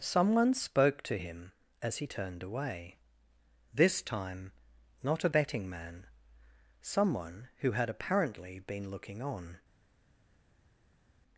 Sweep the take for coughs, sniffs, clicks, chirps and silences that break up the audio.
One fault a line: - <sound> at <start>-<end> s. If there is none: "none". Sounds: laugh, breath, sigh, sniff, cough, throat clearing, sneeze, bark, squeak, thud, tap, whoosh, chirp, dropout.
none